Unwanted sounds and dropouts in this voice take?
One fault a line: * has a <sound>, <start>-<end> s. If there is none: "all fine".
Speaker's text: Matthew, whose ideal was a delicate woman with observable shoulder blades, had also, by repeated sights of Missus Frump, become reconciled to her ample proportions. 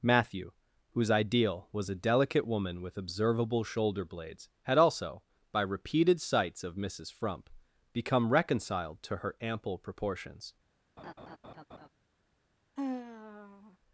* has a laugh, 11.0-11.9 s
* has a sigh, 12.8-13.8 s